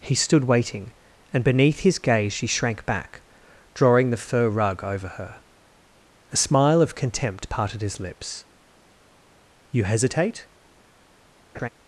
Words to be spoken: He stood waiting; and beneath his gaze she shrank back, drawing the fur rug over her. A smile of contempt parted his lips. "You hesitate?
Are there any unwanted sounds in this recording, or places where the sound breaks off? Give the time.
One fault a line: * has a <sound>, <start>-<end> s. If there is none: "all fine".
* has a laugh, 11.5-11.7 s